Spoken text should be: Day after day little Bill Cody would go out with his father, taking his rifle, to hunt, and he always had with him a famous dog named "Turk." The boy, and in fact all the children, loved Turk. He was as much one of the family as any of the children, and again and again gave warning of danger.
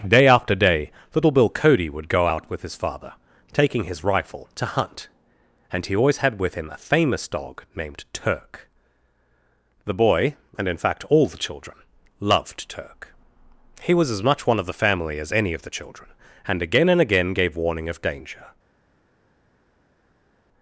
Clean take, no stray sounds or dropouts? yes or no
yes